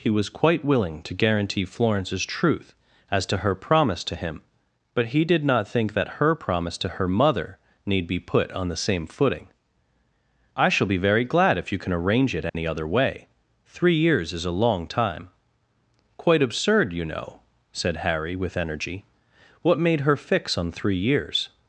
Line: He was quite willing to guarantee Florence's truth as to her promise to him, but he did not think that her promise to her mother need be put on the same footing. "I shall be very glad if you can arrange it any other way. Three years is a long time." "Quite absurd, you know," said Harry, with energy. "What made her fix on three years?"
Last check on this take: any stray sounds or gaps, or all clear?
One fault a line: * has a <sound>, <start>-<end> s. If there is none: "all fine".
* has a dropout, 12.5-12.5 s